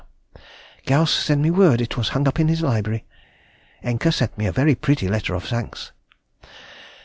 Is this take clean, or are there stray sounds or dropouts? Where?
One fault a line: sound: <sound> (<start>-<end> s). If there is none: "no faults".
no faults